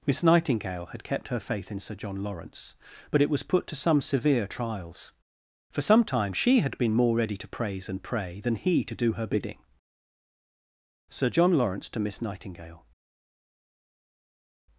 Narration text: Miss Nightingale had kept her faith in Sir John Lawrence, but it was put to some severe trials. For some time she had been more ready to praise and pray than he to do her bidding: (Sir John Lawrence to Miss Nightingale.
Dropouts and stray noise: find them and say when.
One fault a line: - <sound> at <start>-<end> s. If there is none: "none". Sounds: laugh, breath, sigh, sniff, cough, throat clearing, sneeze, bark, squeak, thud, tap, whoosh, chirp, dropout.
none